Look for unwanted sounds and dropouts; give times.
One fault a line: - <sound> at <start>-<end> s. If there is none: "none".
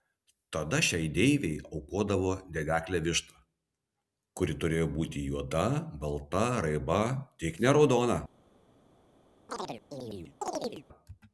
- chirp at 9.5-10.9 s